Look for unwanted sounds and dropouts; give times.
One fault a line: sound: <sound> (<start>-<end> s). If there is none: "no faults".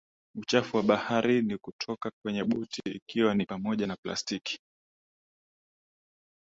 no faults